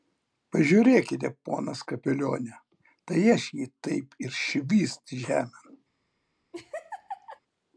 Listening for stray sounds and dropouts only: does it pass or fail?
fail